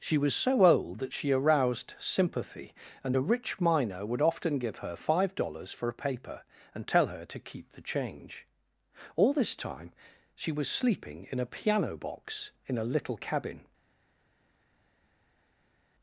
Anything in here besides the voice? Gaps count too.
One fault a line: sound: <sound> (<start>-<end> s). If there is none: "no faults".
no faults